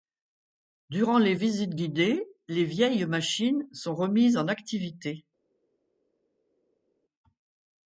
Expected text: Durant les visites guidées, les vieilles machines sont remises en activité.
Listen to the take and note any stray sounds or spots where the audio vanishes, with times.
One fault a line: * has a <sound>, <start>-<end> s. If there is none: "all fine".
all fine